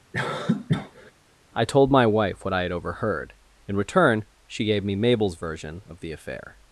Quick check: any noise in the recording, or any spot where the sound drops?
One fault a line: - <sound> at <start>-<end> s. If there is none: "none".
- cough at 0.1-1.1 s